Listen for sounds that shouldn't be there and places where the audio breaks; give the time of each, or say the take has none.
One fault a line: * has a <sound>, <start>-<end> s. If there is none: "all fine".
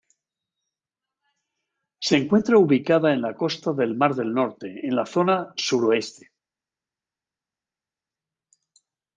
all fine